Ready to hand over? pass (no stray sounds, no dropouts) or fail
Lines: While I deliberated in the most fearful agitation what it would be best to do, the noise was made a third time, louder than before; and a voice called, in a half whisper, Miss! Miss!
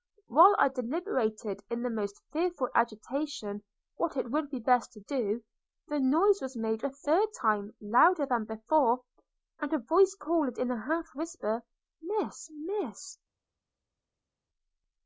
pass